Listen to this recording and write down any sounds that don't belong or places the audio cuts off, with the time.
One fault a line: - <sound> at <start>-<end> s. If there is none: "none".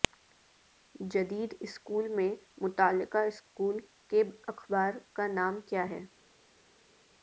none